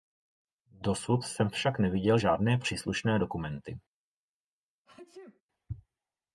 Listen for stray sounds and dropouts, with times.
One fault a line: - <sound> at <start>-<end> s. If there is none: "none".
- sneeze at 4.9-5.4 s